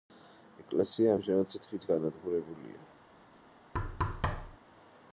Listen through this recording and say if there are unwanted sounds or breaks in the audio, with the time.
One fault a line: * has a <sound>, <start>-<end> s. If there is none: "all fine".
* has a thud, 3.7-4.6 s